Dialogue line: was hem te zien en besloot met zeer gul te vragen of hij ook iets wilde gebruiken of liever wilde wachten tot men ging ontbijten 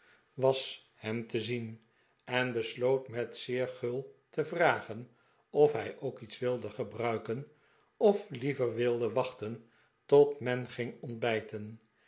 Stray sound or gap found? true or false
false